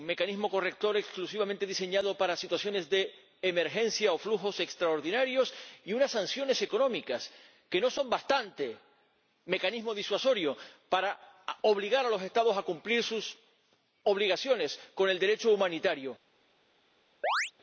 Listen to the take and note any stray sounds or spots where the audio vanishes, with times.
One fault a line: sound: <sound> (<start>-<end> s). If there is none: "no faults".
sound: chirp (17.2-17.5 s)